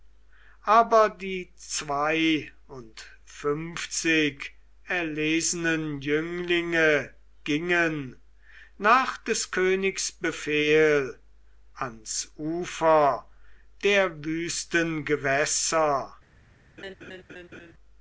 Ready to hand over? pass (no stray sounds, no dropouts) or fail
fail